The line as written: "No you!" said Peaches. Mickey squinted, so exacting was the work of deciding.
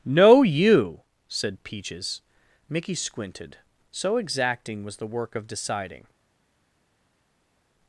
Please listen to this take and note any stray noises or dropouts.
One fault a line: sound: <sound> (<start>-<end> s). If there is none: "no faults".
no faults